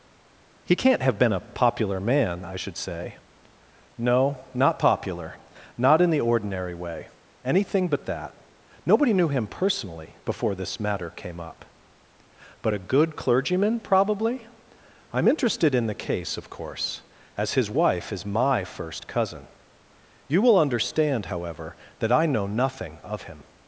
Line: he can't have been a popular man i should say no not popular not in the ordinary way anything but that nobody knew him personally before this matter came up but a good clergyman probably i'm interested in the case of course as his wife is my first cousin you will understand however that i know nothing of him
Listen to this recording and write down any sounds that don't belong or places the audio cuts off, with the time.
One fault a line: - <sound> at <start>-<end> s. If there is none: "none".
none